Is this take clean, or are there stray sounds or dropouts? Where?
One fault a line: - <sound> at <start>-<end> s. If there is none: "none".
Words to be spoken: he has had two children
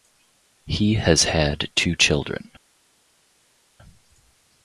none